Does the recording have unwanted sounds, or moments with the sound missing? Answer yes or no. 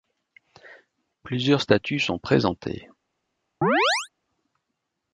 yes